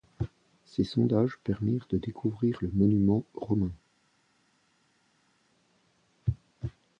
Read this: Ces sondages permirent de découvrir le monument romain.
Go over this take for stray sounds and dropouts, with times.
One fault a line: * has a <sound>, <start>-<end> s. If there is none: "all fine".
all fine